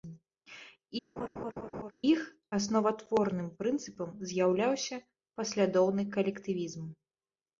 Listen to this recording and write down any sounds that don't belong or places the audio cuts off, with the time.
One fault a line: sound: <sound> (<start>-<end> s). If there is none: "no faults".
sound: laugh (1.2-1.9 s)